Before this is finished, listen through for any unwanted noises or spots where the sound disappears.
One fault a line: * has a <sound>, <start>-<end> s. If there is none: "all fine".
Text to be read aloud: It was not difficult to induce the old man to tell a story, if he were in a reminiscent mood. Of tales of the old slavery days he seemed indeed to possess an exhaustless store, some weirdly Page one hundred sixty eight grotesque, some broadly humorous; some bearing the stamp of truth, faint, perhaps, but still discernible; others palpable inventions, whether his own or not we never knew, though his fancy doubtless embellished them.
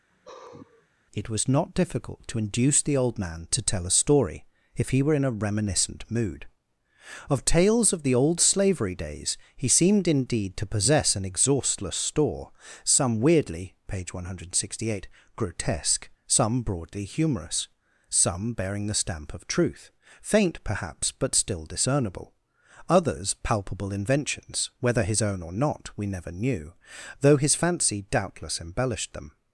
* has a sigh, 0.1-0.9 s